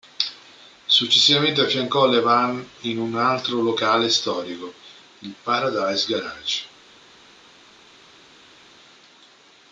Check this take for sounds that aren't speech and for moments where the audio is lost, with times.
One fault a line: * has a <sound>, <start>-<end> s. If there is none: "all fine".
all fine